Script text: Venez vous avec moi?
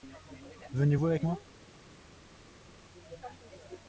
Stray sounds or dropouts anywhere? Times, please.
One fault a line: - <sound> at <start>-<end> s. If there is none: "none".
none